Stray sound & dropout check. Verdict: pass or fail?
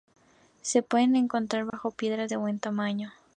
fail